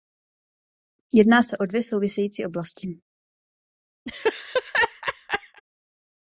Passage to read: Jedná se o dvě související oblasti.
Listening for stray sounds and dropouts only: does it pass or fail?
fail